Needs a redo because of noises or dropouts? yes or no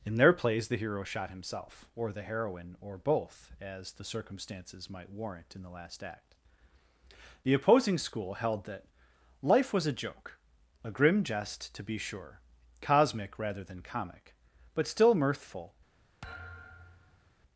yes